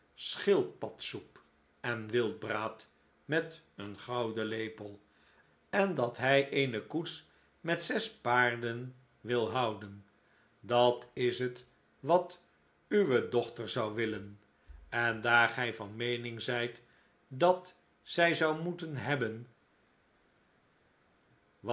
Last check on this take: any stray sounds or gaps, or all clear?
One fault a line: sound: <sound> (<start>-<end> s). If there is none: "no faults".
no faults